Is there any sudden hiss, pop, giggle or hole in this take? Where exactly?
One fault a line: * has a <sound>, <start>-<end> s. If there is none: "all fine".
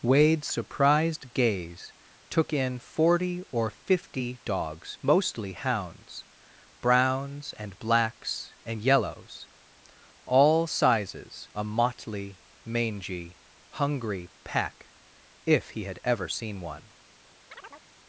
* has a chirp, 17.5-17.9 s